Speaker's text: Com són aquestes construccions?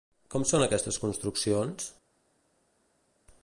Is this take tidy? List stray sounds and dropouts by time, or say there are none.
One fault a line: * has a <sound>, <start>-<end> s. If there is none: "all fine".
all fine